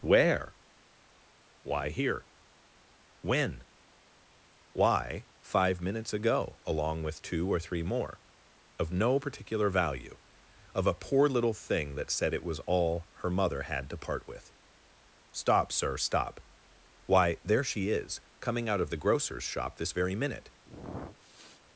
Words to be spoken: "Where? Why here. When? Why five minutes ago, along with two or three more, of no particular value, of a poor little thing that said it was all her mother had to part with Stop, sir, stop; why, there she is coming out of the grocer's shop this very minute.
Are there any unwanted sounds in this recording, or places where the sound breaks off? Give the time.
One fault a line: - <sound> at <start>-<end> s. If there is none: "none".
- sniff at 20.6-21.6 s